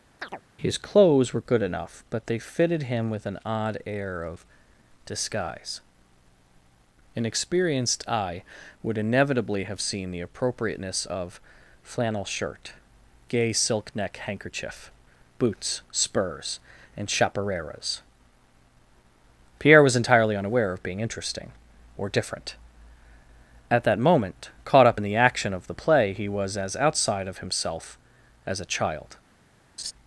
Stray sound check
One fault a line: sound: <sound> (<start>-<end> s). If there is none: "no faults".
sound: chirp (0.2-0.4 s)
sound: laugh (29.8-29.9 s)